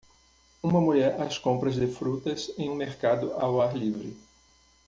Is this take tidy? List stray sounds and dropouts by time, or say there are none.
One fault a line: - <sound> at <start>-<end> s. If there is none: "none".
none